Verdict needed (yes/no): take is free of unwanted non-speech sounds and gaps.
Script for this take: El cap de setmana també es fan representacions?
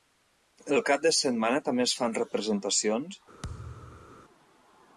no